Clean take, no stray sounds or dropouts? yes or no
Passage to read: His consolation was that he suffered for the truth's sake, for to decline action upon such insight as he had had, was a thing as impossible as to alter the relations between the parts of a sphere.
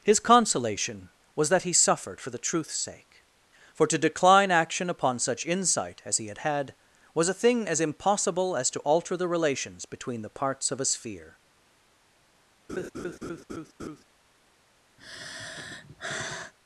no